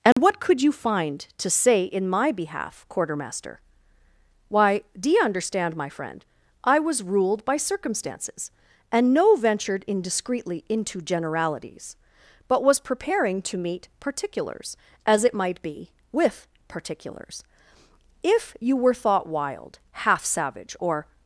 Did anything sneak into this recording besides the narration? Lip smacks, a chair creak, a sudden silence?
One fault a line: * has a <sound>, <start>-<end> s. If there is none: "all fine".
* has a dropout, 0.1-0.2 s